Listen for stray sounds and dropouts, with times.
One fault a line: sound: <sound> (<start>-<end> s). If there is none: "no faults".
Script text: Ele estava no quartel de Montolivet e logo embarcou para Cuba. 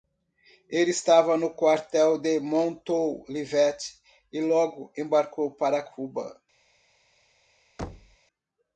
sound: thud (7.8-8.2 s)